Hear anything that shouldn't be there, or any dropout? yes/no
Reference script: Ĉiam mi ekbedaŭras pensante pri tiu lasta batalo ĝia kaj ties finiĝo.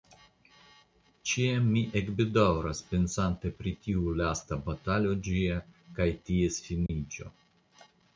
yes